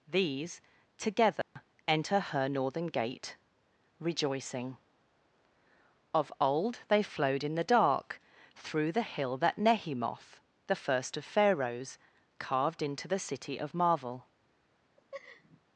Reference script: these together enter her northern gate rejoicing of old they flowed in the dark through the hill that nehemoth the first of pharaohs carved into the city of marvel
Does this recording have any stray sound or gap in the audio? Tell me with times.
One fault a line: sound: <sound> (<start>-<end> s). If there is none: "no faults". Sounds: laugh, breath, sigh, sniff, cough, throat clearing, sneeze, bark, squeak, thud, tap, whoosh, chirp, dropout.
sound: dropout (1.4-1.6 s)
sound: laugh (15.0-15.6 s)